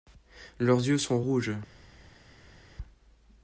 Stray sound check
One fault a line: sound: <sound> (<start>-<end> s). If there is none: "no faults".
no faults